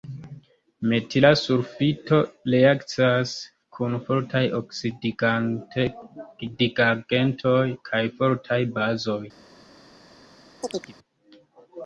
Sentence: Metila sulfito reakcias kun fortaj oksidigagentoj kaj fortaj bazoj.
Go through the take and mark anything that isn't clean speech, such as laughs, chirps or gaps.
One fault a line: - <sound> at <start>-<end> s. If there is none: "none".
- chirp at 10.6-10.9 s